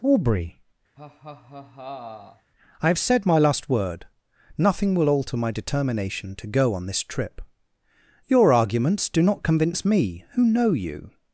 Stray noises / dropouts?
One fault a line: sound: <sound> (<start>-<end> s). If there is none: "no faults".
sound: laugh (1.0-2.5 s)